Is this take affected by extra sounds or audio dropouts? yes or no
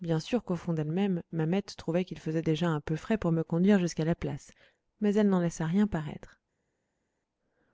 no